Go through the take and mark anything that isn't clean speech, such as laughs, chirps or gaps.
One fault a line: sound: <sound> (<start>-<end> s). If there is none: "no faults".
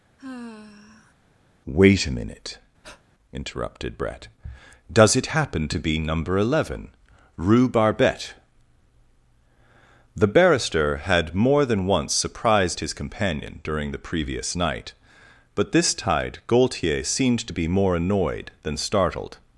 sound: sigh (0.2-1.1 s)
sound: breath (2.8-3.0 s)